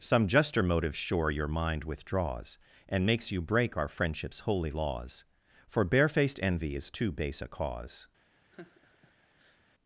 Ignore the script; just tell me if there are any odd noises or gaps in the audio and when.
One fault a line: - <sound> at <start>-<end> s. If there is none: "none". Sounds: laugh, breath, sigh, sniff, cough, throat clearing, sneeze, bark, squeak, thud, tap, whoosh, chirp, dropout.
- laugh at 8.5-9.6 s